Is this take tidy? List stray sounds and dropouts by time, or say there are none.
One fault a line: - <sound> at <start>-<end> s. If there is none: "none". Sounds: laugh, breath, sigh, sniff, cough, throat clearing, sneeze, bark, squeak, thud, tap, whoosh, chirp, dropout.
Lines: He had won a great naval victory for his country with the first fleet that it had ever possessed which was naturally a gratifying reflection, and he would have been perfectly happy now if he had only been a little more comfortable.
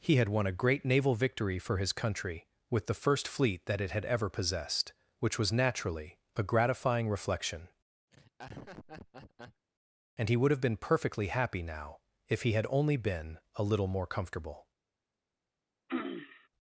- laugh at 8.1-9.7 s
- throat clearing at 15.9-16.5 s